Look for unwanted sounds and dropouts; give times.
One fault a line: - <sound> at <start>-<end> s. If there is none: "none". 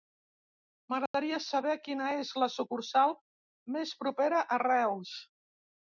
- dropout at 1.1-1.1 s